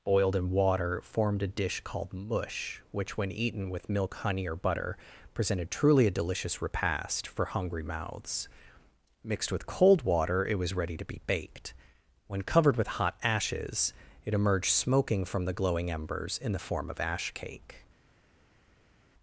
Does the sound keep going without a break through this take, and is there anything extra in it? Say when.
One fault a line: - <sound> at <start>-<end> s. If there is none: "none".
none